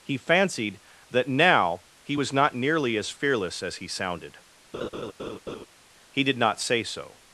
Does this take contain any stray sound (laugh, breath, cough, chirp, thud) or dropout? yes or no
yes